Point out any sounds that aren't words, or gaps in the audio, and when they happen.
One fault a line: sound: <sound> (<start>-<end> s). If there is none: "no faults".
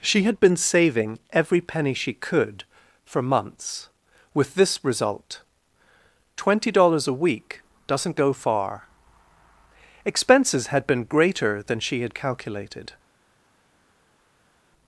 no faults